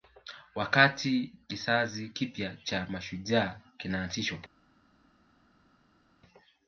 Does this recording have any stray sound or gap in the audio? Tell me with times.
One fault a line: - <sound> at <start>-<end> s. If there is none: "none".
none